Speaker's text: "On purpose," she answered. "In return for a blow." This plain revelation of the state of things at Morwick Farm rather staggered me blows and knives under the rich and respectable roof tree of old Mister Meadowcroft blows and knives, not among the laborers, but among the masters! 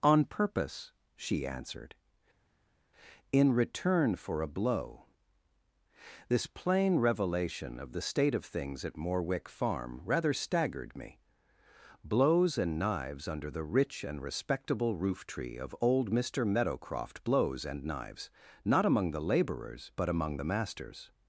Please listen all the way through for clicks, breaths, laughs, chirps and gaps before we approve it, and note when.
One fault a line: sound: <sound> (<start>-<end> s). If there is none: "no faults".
no faults